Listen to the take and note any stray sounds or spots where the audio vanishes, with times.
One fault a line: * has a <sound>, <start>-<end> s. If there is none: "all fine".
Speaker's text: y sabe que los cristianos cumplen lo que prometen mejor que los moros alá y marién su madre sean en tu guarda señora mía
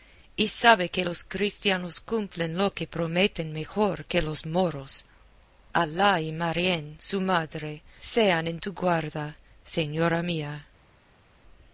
all fine